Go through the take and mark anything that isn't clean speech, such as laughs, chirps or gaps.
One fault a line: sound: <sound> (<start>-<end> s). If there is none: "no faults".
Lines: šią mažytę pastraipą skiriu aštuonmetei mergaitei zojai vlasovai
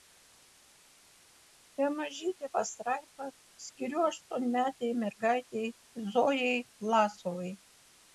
no faults